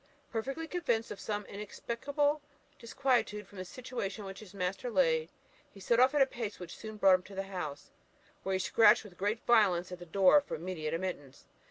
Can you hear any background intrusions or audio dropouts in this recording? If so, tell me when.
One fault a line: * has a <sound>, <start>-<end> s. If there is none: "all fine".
all fine